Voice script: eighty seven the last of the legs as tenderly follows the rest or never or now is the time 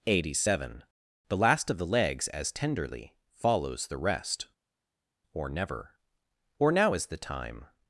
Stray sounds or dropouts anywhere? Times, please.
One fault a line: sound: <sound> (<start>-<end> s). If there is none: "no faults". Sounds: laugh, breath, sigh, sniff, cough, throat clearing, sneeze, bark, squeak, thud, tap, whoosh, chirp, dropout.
no faults